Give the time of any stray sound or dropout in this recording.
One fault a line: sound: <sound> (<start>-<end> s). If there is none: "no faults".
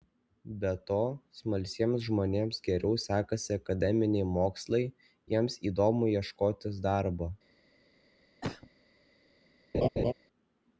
sound: cough (8.4-8.7 s)
sound: laugh (9.7-10.1 s)